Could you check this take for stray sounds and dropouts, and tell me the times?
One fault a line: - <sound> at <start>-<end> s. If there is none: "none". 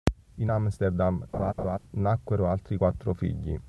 - laugh at 1.3-1.8 s